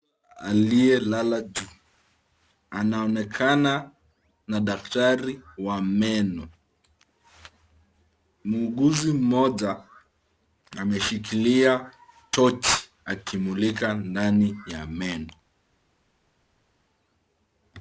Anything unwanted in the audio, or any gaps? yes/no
no